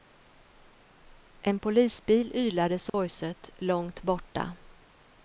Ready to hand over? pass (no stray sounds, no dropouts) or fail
fail